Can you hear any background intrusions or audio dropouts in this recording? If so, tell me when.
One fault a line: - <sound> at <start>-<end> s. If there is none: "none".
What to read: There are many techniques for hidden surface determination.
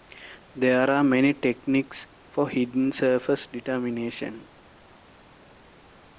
none